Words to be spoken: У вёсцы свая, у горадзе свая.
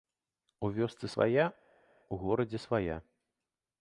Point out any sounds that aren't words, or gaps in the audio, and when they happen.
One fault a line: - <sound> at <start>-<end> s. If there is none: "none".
none